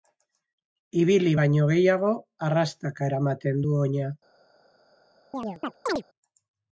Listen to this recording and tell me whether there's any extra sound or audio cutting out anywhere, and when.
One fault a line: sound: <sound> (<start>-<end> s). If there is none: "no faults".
sound: chirp (5.3-6.0 s)